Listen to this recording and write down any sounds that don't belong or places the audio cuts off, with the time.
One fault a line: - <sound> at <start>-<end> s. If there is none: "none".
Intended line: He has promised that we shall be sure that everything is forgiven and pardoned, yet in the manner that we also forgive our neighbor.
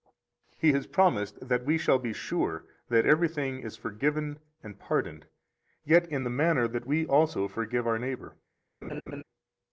- laugh at 8.8-9.2 s